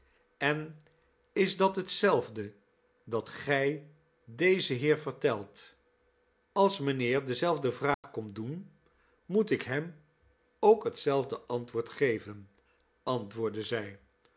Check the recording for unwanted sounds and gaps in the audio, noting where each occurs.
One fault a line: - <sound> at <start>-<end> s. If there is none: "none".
- dropout at 7.9-8.0 s